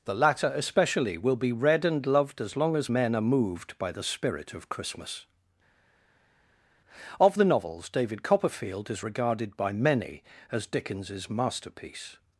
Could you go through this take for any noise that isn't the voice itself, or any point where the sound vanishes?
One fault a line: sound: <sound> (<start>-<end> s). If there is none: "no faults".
no faults